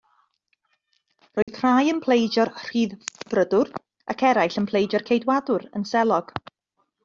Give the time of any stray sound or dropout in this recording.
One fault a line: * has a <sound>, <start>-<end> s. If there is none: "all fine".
* has a dropout, 1.4-1.5 s